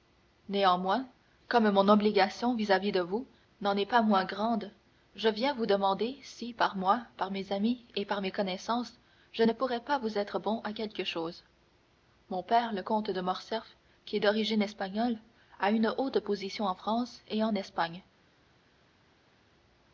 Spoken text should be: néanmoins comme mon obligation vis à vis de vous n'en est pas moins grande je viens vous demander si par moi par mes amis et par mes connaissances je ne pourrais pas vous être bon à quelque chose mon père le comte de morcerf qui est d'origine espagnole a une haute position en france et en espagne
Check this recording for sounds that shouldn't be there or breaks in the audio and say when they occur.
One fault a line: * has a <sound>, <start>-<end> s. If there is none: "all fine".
all fine